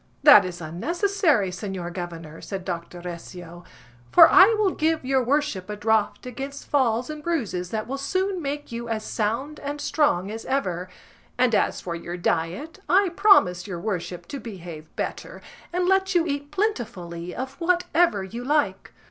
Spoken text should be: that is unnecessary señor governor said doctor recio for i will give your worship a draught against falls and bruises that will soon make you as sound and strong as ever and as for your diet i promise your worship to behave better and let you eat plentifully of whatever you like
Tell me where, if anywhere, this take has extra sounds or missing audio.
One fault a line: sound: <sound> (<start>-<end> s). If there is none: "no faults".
no faults